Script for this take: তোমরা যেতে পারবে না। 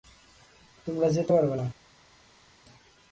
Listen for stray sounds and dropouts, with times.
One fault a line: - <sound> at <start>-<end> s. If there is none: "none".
none